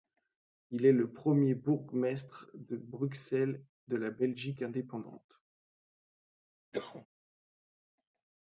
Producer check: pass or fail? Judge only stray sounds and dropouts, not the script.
fail